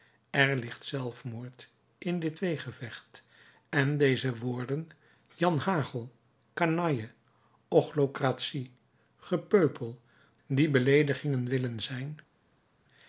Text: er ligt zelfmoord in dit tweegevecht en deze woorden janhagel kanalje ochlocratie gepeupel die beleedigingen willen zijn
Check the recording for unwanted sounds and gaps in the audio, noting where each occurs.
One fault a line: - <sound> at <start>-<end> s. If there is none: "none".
none